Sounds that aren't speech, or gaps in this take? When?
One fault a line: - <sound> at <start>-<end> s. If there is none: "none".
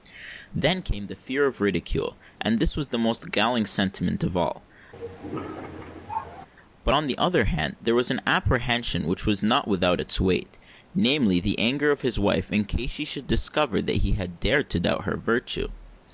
- cough at 4.9-6.5 s